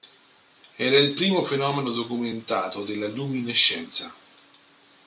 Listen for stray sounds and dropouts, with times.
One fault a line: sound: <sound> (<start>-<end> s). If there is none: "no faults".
no faults